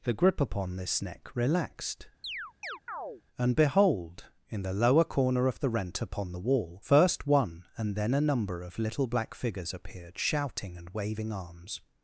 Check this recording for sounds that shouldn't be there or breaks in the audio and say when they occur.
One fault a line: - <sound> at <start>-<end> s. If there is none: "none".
- chirp at 2.2-3.2 s